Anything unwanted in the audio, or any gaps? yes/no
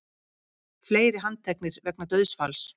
no